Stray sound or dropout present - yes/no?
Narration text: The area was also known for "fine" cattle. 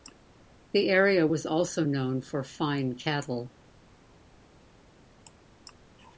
no